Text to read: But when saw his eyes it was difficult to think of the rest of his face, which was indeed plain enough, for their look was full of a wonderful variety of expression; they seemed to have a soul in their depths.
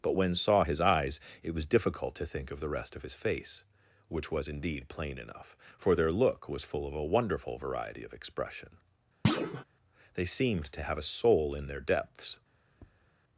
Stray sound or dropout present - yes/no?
yes